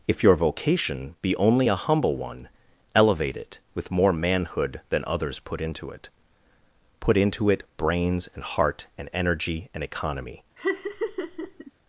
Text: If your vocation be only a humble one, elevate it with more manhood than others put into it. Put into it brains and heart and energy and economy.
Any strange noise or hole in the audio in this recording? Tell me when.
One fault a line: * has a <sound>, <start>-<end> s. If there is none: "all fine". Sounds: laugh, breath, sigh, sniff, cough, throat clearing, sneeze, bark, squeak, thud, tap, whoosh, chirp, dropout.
* has a laugh, 10.6-11.7 s